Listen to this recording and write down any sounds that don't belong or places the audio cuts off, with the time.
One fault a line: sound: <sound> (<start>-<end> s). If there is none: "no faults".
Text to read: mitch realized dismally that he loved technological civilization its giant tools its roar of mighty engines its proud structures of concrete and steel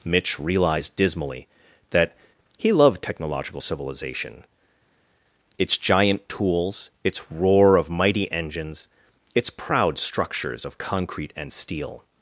no faults